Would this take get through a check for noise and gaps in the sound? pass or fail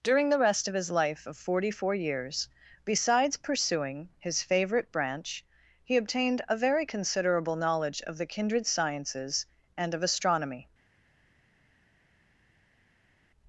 pass